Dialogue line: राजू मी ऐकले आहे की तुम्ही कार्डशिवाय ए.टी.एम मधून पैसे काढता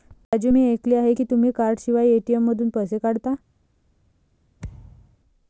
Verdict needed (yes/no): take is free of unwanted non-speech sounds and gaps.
no